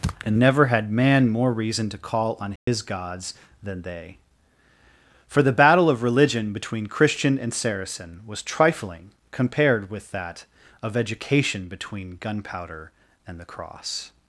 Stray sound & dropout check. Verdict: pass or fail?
fail